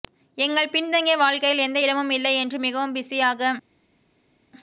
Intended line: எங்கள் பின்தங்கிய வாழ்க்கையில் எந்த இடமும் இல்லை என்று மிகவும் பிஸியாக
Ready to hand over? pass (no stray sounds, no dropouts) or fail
pass